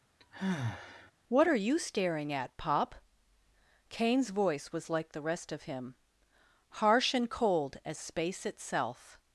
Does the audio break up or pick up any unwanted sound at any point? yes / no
yes